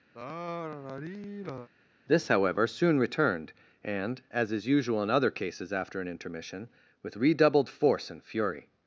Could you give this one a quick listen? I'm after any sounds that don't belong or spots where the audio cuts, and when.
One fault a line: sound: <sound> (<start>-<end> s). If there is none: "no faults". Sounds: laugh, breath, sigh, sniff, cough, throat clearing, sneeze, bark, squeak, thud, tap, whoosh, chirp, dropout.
sound: sigh (0.1-1.7 s)